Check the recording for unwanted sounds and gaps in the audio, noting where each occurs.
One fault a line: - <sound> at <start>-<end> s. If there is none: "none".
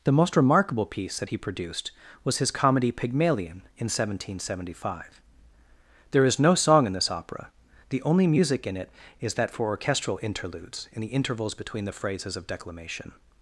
none